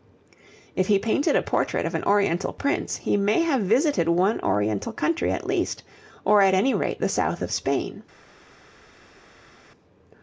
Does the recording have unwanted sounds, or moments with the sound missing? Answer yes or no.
no